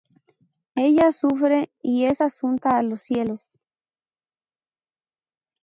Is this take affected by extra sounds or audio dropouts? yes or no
no